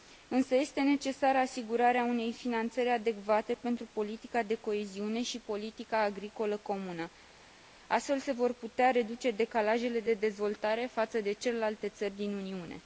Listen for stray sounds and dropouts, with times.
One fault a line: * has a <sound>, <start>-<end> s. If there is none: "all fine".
all fine